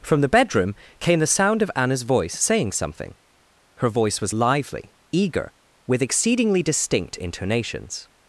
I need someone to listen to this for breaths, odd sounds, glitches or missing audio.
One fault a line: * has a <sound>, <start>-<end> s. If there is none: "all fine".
all fine